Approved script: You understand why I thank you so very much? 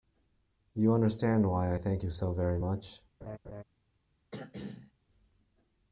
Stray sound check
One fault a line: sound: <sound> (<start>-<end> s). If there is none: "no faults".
sound: laugh (3.2-3.6 s)
sound: throat clearing (4.3-4.9 s)